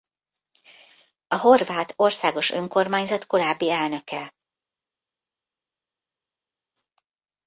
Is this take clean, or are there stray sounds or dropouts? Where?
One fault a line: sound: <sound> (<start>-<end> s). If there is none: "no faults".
no faults